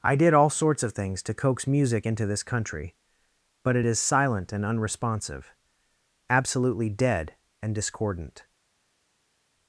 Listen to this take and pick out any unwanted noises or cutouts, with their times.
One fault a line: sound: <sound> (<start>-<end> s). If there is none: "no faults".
no faults